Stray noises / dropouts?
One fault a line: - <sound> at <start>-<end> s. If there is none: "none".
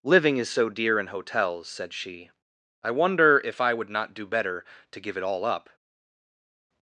none